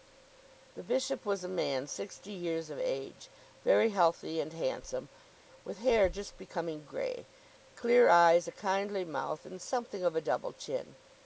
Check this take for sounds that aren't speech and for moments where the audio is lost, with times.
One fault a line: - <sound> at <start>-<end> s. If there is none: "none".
none